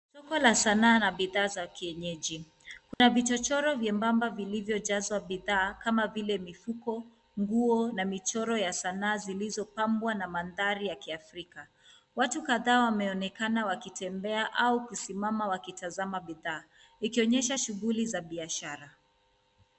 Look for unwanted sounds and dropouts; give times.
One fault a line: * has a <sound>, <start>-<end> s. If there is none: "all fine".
* has a dropout, 2.9-3.0 s